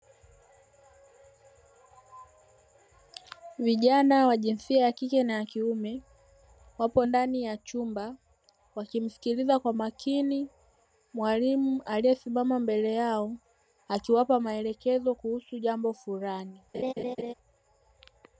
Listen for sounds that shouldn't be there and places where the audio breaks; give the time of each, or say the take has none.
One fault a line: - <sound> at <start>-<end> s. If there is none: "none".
- laugh at 16.7-17.3 s